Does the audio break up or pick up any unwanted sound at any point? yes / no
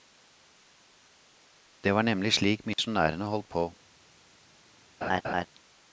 yes